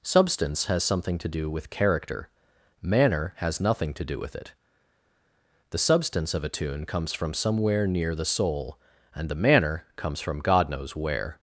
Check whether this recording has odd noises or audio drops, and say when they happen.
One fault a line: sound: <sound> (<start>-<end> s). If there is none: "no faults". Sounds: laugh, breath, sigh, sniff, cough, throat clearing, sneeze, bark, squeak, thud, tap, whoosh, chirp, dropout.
no faults